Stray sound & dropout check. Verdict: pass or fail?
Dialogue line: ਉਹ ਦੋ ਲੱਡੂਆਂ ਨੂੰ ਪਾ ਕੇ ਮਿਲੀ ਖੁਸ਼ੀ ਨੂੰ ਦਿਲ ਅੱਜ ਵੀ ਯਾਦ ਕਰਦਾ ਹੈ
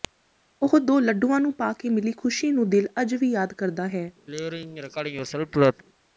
fail